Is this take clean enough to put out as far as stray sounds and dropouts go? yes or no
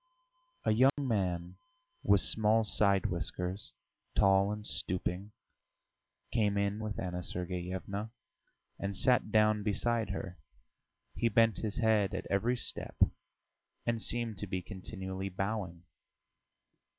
no